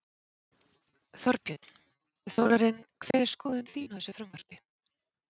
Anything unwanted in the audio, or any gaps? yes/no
yes